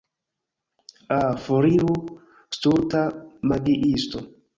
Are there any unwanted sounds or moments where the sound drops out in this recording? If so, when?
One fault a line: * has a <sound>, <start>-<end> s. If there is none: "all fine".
all fine